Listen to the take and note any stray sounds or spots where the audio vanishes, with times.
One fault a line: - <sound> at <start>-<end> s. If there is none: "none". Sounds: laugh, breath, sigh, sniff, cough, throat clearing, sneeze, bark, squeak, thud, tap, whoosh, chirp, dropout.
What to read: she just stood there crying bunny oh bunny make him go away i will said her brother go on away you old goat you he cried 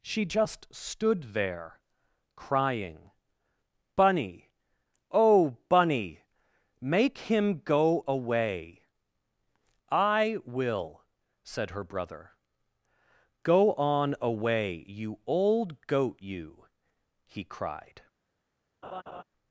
- laugh at 18.8-19.2 s